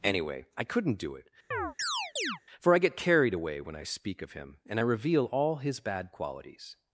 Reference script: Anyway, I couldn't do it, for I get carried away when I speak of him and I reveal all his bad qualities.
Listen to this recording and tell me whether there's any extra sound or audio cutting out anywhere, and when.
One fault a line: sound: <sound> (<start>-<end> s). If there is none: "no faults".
sound: chirp (1.5-2.4 s)